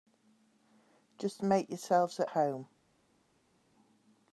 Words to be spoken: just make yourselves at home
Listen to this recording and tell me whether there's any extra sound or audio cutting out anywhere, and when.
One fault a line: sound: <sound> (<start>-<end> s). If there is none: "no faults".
no faults